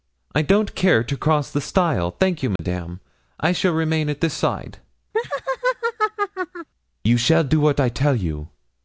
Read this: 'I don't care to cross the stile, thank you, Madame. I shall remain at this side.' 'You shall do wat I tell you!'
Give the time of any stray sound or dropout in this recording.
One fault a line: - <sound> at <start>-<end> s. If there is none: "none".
- dropout at 2.6-2.6 s
- laugh at 5.1-6.7 s